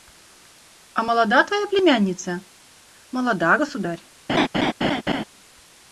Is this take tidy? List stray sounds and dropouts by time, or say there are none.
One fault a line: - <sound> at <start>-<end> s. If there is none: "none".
- laugh at 4.3-5.2 s